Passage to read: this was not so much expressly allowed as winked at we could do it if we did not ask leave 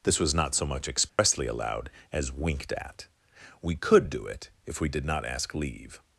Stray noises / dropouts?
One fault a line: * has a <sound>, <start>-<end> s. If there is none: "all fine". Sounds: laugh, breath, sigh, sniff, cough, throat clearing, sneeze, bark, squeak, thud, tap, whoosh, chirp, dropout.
* has a dropout, 1.1-1.2 s